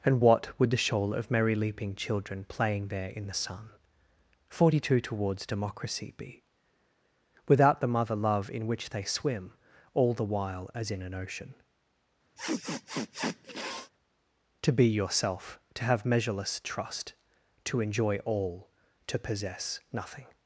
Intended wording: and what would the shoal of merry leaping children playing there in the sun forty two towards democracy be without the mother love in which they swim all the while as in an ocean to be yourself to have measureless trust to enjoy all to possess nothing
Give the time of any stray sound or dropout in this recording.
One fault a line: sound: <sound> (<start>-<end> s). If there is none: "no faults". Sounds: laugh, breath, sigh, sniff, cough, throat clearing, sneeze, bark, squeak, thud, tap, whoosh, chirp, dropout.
sound: sniff (12.4-13.9 s)